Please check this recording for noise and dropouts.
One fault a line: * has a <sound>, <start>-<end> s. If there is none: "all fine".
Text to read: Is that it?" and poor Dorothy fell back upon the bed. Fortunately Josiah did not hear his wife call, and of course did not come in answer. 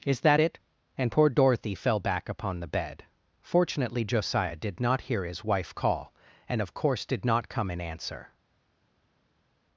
all fine